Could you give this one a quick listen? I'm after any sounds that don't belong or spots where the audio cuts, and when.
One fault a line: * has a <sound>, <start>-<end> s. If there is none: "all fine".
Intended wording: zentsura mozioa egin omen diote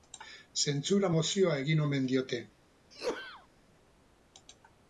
* has a sneeze, 2.9-3.5 s